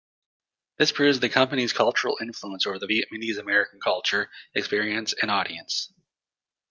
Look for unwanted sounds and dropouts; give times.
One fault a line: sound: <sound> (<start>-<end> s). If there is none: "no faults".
no faults